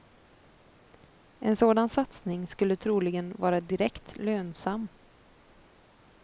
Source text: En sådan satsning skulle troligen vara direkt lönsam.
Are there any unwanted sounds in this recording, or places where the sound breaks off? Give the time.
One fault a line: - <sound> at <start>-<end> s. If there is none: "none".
none